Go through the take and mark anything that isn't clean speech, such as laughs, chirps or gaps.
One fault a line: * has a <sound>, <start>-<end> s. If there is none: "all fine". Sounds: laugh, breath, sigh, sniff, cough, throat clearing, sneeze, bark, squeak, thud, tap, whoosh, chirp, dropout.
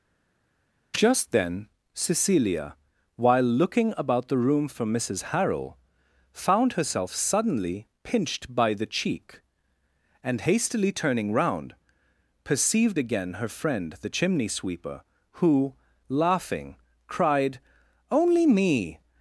all fine